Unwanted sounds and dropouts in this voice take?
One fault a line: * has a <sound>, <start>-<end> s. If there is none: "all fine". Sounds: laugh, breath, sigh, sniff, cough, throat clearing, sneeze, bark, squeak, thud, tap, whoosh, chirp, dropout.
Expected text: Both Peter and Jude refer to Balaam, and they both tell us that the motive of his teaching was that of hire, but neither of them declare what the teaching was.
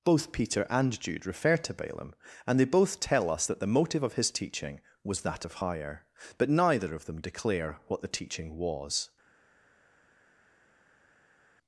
all fine